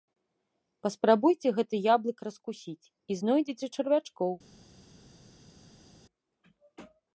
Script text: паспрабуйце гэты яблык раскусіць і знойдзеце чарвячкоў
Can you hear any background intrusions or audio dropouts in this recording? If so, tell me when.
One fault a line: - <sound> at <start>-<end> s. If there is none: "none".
none